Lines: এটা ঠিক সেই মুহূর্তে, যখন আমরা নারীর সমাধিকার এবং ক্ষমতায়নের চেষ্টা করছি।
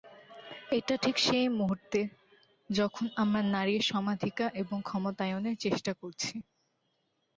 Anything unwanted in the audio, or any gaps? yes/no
no